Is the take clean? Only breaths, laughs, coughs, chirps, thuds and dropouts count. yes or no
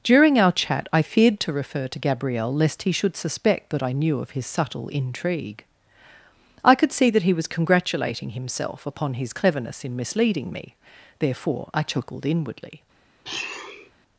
no